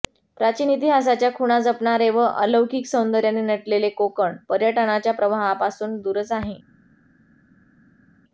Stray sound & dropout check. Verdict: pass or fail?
pass